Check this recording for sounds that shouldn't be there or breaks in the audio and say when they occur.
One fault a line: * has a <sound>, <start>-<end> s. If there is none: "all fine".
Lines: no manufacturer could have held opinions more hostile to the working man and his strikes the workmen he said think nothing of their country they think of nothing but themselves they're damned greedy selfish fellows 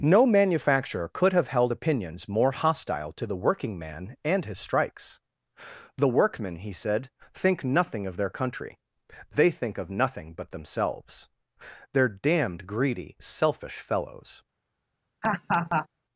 * has a laugh, 15.2-15.9 s